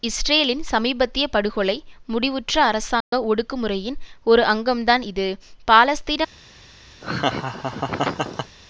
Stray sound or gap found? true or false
true